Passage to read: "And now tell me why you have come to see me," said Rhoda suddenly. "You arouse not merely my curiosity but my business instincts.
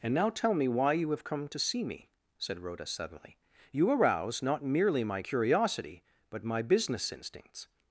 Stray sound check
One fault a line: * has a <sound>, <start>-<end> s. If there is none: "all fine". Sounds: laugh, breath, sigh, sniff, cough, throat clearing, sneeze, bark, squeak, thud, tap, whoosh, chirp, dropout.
all fine